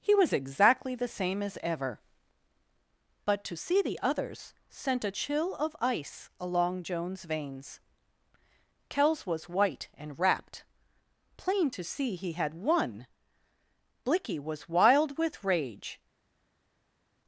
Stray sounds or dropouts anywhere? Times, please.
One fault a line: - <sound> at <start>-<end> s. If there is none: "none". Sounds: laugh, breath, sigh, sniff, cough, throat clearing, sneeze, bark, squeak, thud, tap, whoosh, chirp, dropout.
none